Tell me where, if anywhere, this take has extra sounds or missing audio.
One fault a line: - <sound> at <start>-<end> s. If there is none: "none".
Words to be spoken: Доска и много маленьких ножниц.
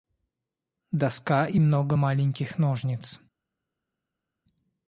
none